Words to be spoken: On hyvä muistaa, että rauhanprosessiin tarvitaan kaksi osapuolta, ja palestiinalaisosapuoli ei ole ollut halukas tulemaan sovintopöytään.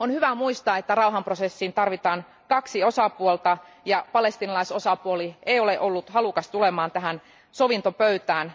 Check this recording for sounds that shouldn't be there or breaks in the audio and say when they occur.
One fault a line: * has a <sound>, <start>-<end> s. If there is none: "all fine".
all fine